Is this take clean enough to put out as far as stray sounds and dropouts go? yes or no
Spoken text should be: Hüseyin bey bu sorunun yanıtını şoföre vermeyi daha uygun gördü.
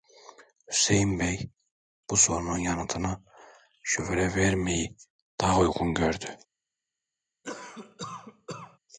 no